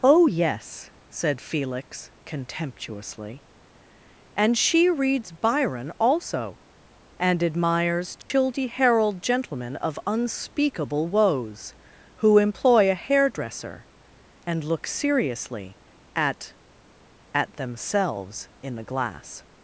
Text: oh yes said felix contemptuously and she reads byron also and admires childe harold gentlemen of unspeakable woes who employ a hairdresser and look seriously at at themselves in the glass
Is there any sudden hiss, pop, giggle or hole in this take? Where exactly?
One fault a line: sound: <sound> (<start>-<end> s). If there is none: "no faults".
sound: dropout (8.2-8.3 s)